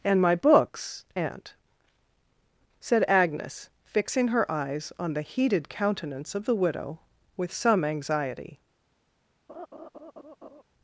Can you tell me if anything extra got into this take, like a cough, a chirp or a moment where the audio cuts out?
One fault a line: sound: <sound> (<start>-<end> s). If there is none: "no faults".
sound: laugh (9.5-10.6 s)